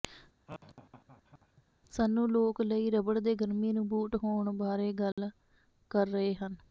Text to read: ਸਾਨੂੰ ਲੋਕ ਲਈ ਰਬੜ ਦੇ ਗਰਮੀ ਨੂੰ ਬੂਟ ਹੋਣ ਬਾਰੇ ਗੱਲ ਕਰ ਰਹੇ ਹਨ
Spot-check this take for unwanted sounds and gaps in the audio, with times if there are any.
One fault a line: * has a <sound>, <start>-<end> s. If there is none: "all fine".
* has a laugh, 0.5-1.6 s
* has a dropout, 5.1-5.2 s